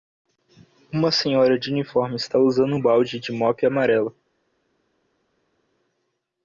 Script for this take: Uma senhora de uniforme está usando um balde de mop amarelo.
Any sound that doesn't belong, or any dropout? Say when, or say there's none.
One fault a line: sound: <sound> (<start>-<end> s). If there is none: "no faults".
no faults